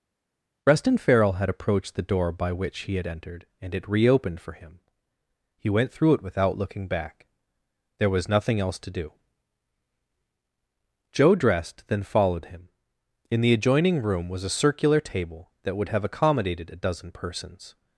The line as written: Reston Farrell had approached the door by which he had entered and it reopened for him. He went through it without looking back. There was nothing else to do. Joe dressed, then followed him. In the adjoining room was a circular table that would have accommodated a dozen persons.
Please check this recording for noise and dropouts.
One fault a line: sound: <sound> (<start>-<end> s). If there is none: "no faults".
no faults